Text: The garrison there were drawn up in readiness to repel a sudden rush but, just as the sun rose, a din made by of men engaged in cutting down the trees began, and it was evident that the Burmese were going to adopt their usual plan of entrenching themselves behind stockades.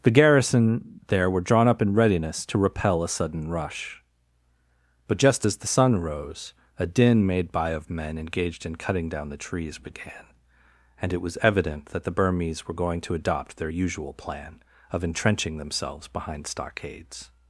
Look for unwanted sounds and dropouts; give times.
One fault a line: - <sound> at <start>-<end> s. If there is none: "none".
none